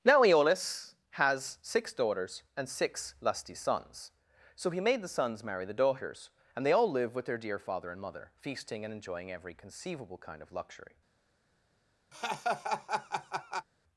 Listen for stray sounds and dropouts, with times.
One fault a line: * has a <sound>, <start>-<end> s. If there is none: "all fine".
* has a laugh, 12.1-13.7 s